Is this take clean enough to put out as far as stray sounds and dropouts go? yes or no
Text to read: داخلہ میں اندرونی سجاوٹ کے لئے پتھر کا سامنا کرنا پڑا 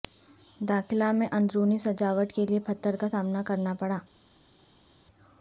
yes